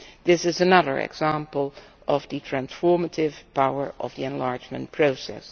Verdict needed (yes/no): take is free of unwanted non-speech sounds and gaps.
yes